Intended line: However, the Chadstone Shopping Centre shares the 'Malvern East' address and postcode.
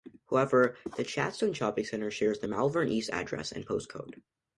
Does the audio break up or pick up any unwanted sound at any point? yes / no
no